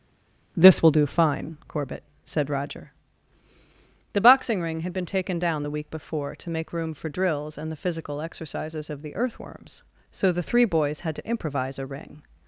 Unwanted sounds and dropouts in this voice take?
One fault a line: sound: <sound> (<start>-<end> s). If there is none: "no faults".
no faults